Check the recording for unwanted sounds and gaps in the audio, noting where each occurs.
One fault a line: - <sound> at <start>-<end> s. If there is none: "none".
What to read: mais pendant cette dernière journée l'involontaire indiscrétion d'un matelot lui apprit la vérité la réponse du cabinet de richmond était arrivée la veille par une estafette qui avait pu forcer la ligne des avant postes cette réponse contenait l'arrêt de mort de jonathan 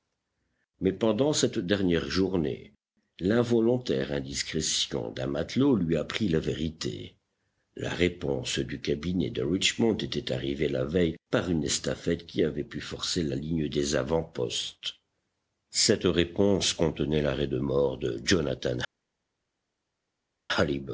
none